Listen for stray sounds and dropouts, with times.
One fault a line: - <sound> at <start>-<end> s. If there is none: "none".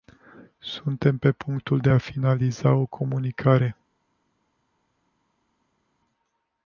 none